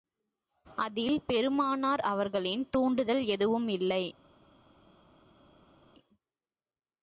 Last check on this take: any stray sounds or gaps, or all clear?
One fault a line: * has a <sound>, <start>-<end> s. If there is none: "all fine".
all fine